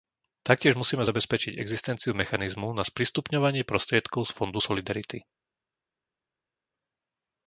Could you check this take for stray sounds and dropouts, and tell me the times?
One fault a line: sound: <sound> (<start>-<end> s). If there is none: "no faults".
no faults